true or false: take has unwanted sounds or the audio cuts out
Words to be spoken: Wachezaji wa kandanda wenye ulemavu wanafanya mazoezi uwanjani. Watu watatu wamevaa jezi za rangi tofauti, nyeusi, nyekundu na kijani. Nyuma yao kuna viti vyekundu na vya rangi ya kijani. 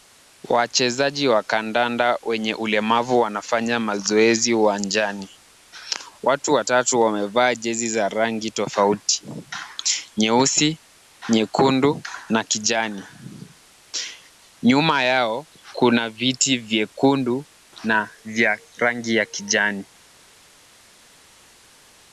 false